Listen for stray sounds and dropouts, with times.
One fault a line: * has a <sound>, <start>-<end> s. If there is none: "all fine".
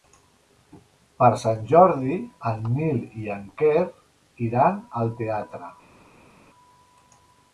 all fine